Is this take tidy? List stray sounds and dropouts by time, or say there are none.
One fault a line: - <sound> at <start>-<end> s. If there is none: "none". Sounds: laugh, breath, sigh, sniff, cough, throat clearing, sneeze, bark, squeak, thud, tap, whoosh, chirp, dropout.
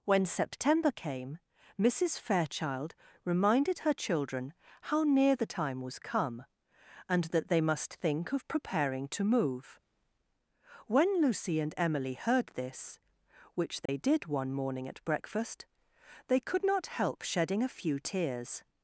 - dropout at 13.9-13.9 s